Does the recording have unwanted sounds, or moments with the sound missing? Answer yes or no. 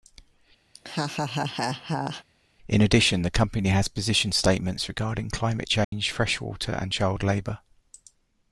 yes